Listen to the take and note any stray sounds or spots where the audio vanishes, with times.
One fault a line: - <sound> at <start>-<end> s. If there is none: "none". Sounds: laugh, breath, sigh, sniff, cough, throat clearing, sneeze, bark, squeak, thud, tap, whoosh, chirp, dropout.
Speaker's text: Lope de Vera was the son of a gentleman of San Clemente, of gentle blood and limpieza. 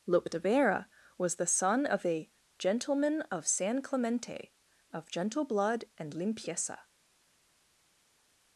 none